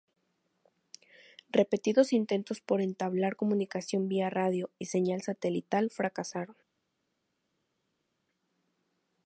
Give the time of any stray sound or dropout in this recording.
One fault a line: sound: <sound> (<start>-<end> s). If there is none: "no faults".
no faults